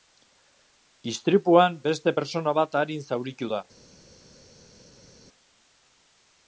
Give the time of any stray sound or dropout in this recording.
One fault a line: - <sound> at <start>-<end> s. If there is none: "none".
none